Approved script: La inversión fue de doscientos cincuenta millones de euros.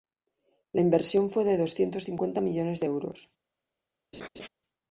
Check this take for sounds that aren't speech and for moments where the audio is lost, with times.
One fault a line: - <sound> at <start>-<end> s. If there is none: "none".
- laugh at 4.1-4.5 s